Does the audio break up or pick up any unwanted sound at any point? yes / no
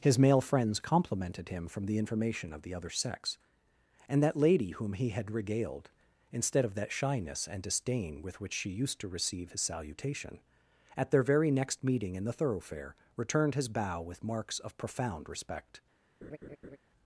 yes